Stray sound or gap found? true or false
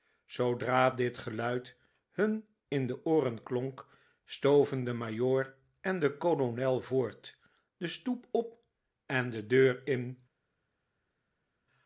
false